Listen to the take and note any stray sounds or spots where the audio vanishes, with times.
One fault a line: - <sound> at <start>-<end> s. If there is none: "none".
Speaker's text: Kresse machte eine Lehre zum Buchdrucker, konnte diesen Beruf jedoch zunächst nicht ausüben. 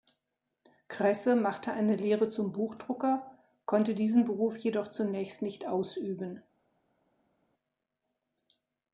none